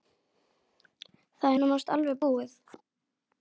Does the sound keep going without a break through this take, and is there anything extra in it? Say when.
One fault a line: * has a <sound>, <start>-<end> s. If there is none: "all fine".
all fine